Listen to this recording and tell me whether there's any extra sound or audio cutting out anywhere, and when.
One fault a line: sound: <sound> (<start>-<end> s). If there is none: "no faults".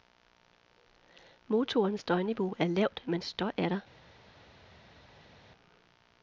no faults